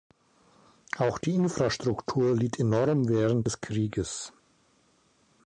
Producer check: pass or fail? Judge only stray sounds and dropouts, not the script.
pass